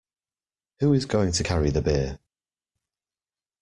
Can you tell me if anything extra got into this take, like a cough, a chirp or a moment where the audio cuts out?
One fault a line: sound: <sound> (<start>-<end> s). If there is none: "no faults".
no faults